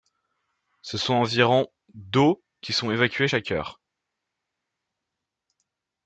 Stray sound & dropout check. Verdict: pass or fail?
pass